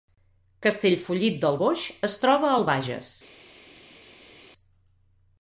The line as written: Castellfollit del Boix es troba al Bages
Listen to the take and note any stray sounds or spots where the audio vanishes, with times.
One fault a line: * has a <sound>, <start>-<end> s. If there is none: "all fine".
all fine